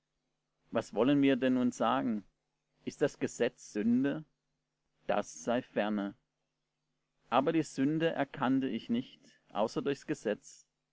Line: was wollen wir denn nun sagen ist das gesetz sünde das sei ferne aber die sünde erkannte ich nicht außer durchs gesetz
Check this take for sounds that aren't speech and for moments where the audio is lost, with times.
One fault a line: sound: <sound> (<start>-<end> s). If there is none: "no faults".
no faults